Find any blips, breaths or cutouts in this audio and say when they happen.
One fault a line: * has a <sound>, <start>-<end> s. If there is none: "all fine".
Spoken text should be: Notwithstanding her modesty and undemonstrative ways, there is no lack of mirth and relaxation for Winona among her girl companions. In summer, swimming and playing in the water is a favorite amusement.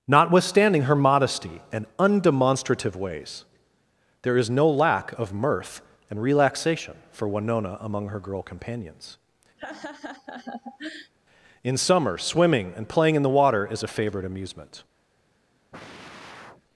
* has a laugh, 9.6-11.1 s
* has a sigh, 15.7-16.6 s